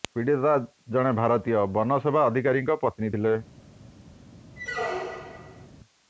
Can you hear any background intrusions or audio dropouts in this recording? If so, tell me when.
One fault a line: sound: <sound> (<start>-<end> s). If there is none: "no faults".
sound: squeak (4.6-5.7 s)